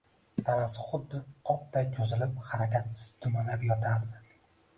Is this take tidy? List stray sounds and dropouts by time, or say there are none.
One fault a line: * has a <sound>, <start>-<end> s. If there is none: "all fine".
all fine